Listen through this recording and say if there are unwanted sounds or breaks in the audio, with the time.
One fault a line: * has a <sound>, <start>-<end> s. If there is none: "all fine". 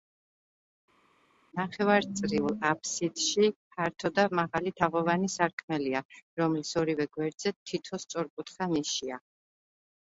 all fine